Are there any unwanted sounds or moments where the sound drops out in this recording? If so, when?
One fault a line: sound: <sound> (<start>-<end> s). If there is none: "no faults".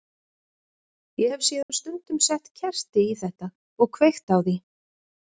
sound: dropout (1.6-1.7 s)